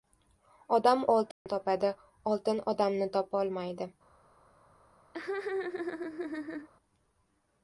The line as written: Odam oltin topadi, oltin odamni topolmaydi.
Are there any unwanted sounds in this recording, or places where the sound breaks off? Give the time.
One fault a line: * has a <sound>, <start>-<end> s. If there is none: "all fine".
* has a dropout, 1.3-1.5 s
* has a laugh, 5.1-6.7 s